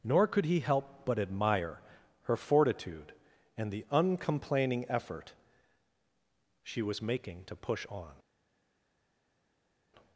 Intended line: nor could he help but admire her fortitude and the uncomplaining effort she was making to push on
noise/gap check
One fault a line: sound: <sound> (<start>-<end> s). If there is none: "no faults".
no faults